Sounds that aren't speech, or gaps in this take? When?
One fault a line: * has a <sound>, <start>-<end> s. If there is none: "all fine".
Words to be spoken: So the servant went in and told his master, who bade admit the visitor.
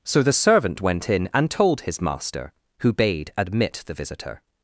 all fine